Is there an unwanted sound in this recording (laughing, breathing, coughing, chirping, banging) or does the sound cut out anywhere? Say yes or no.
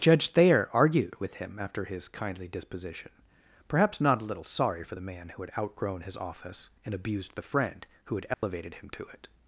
yes